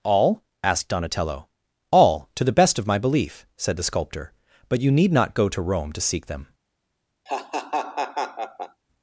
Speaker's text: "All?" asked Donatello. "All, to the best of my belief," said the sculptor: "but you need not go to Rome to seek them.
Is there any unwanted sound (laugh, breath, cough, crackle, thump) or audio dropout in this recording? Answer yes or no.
yes